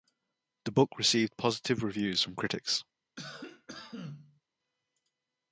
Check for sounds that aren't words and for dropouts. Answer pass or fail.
fail